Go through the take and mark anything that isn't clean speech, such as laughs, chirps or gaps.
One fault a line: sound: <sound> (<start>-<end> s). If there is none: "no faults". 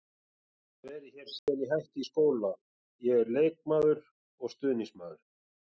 sound: dropout (1.4-1.5 s)